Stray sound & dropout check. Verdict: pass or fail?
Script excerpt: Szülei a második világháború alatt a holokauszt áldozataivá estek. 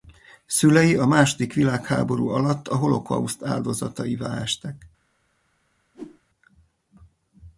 fail